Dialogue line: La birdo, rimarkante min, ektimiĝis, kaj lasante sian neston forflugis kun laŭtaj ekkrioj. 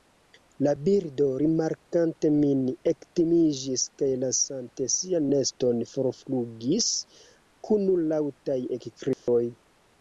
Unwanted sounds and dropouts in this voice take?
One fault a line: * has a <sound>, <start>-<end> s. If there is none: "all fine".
* has a dropout, 9.1-9.3 s